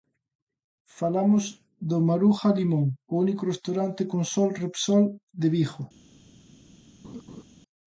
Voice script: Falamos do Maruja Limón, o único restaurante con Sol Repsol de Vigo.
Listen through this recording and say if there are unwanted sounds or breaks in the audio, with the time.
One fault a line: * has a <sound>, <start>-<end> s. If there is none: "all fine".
* has a laugh, 7.0-7.4 s